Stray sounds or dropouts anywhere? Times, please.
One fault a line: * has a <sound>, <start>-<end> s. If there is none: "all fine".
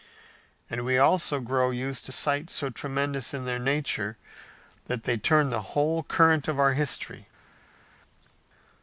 all fine